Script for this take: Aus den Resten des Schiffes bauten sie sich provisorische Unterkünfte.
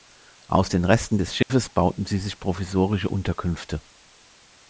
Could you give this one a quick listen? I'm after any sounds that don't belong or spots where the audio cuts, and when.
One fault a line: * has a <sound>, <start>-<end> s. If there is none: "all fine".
* has a dropout, 1.4-1.5 s